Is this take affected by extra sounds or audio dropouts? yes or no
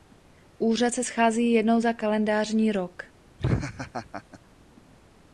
yes